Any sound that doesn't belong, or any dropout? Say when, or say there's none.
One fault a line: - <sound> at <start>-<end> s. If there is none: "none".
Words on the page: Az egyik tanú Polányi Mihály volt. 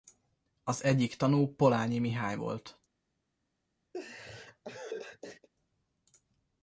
- laugh at 3.9-5.5 s